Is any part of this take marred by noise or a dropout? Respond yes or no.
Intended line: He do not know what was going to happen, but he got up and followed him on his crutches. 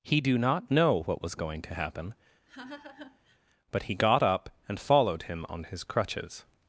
yes